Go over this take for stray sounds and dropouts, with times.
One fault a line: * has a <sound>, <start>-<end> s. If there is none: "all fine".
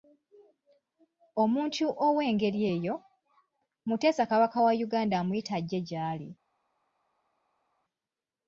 all fine